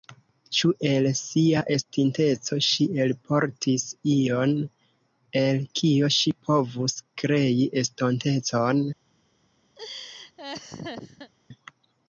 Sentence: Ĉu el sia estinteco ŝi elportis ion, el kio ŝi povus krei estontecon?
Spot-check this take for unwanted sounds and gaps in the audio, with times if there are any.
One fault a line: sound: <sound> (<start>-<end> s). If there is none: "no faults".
sound: laugh (9.8-11.3 s)